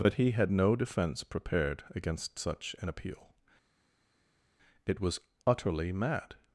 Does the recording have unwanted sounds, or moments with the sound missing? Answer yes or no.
no